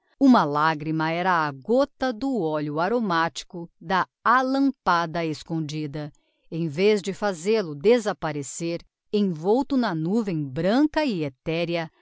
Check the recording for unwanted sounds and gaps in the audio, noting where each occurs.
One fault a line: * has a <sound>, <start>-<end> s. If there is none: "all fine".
all fine